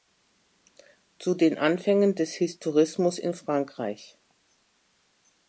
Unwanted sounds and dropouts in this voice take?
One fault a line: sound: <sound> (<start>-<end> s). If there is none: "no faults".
no faults